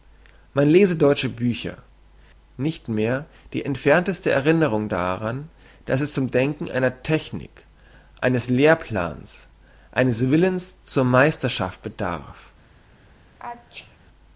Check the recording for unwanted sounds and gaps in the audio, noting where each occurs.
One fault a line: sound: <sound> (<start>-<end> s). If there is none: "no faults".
sound: sneeze (13.4-14.0 s)